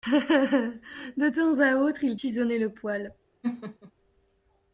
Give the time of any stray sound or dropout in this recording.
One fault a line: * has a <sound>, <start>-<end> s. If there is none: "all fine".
* has a laugh, 3.4-3.9 s